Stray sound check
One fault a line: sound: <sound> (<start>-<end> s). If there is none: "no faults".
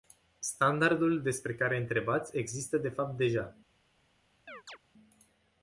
sound: chirp (4.5-4.8 s)